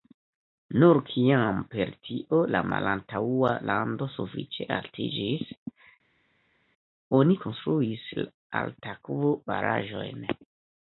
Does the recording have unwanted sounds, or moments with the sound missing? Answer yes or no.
no